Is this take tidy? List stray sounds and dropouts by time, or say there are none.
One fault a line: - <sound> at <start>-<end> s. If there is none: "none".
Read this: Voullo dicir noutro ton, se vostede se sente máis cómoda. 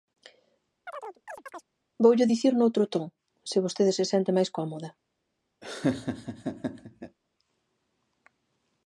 - chirp at 0.9-1.7 s
- laugh at 5.6-7.2 s